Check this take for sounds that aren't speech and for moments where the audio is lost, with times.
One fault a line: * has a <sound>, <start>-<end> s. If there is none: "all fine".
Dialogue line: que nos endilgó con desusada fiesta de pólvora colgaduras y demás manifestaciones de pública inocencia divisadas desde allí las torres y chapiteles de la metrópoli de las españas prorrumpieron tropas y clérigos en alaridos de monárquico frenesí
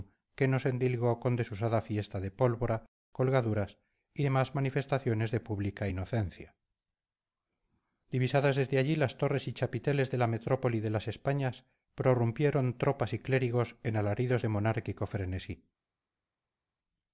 all fine